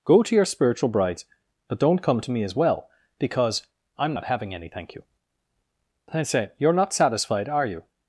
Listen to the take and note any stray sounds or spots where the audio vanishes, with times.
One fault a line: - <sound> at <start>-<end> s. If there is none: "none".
none